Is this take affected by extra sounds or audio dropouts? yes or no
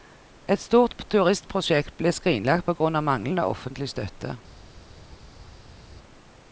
no